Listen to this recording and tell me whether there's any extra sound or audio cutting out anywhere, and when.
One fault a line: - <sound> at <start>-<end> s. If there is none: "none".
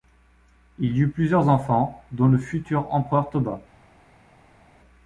none